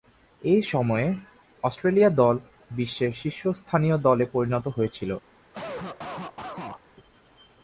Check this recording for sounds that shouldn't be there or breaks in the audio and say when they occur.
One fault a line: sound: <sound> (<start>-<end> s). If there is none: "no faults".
sound: cough (5.5-6.8 s)